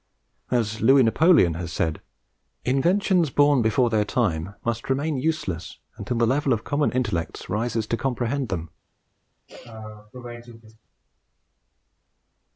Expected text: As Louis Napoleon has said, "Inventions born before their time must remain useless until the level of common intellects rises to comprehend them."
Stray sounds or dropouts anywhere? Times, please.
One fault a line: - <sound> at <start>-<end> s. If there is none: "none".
- sneeze at 9.5-10.8 s